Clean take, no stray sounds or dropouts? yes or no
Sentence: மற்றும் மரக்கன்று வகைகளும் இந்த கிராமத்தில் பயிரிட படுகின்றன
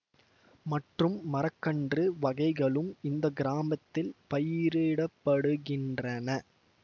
yes